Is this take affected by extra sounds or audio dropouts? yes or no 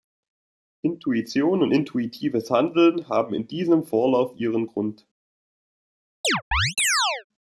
yes